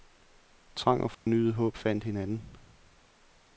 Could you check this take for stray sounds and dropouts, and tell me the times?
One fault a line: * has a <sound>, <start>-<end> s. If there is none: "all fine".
* has a dropout, 1.1-1.3 s